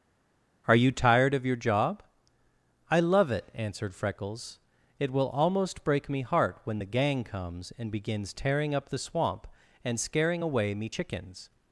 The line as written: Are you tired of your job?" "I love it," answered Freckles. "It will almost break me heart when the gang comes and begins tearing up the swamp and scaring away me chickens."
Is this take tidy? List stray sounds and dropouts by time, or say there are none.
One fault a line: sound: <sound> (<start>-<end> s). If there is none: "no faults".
no faults